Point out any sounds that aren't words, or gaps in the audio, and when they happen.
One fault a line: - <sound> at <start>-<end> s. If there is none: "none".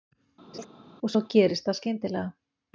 - laugh at 0.5-0.7 s